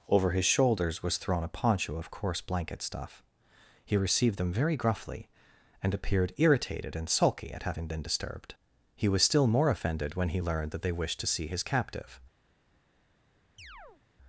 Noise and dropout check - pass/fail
fail